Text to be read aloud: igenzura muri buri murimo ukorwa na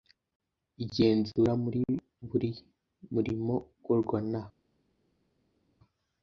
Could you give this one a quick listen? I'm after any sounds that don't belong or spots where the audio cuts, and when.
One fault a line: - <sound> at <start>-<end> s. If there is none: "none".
none